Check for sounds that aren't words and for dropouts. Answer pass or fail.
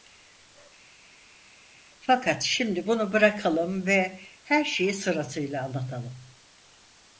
pass